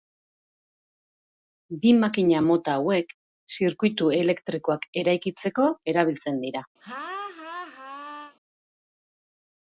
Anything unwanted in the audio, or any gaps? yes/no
yes